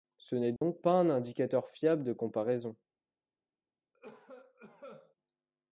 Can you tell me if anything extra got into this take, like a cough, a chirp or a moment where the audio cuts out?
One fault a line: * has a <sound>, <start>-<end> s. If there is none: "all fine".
* has a dropout, 0.6-0.6 s
* has a cough, 3.9-5.2 s